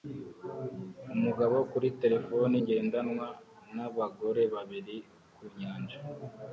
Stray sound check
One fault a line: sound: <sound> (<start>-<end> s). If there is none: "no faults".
no faults